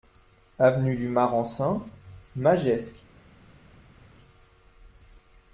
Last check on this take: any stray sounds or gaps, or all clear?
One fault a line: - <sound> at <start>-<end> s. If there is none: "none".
none